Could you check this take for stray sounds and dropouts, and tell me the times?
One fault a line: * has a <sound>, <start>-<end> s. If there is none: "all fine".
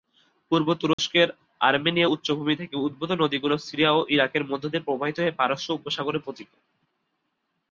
* has a dropout, 0.9-1.0 s